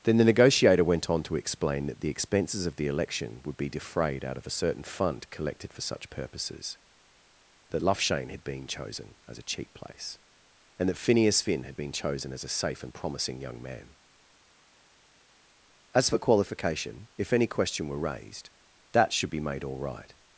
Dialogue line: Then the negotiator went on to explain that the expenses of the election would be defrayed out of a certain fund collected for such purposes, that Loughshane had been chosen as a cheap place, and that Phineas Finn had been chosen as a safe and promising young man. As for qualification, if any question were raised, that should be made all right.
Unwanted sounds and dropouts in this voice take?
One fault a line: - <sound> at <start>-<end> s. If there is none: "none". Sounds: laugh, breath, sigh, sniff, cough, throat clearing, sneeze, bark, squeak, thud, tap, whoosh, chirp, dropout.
none